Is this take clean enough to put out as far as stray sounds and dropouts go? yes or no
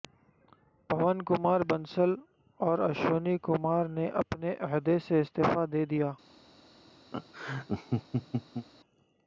no